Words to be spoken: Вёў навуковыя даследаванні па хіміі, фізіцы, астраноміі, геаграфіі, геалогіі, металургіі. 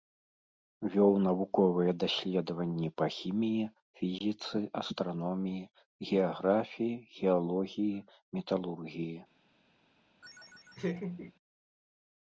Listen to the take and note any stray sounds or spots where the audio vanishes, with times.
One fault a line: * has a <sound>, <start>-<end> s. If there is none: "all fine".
* has a laugh, 10.2-11.3 s